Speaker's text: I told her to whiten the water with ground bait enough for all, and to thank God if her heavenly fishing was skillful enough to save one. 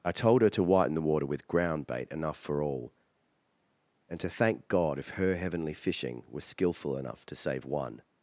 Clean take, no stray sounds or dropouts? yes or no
yes